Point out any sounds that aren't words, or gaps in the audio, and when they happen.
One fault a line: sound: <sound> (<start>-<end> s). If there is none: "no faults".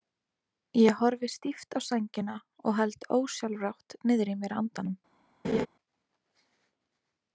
sound: laugh (5.4-5.7 s)